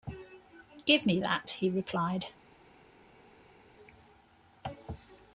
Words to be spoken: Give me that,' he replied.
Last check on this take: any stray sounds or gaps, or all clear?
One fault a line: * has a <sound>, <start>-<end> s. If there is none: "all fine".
all fine